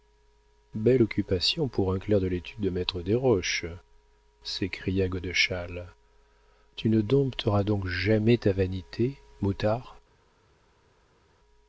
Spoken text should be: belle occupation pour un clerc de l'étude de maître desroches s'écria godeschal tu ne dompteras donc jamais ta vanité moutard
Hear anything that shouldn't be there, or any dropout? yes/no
no